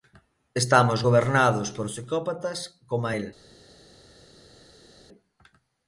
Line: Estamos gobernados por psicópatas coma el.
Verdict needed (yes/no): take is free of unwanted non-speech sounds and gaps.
yes